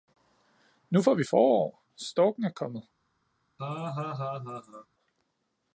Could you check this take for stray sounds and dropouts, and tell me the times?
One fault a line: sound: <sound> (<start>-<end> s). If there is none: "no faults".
sound: laugh (3.6-4.9 s)